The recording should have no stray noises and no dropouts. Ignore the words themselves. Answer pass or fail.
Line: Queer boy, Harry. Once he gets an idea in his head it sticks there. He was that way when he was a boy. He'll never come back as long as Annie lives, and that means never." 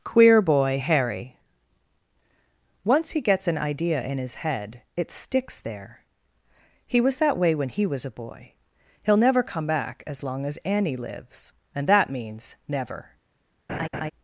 fail